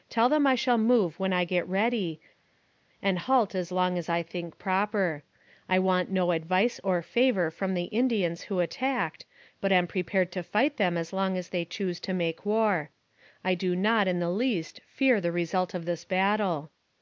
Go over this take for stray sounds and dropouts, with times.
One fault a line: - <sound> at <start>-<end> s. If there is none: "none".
none